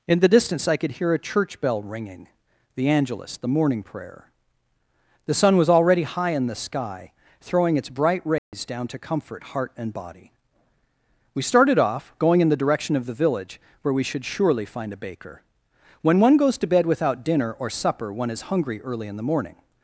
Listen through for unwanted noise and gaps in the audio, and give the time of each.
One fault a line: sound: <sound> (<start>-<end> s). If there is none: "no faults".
sound: dropout (8.4-8.5 s)